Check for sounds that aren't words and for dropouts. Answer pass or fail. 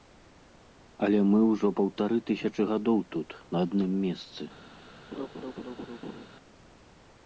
fail